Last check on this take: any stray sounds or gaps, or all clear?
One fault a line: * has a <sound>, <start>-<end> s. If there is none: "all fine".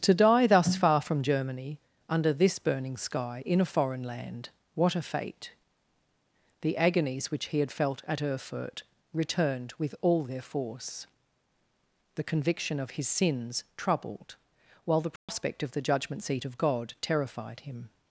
* has a dropout, 15.2-15.3 s